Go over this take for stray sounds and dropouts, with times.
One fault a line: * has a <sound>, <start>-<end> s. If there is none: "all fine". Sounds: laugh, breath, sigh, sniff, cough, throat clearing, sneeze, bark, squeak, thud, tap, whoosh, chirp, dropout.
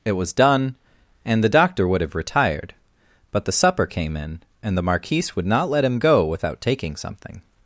all fine